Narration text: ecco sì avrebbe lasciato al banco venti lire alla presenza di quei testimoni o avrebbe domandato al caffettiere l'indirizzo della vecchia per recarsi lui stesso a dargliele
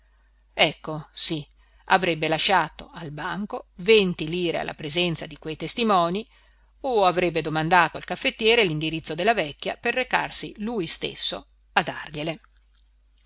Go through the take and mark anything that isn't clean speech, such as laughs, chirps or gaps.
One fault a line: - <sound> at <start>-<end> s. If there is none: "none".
none